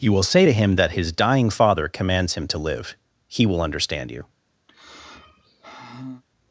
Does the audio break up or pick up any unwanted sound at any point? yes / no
yes